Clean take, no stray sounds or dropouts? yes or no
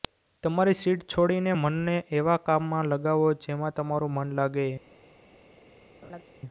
no